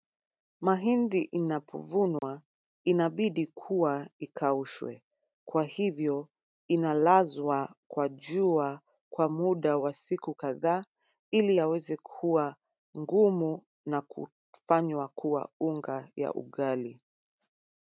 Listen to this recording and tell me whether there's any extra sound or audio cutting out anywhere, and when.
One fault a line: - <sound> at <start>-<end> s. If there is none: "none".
- dropout at 2.2-2.2 s